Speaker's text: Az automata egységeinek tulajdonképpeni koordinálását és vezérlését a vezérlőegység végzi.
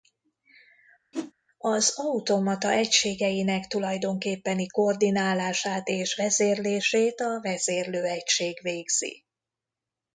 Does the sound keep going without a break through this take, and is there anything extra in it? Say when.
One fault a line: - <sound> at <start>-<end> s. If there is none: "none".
- whoosh at 1.1-1.3 s